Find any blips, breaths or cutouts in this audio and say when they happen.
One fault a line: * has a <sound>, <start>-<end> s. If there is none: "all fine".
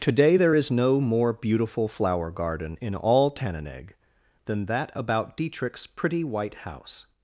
all fine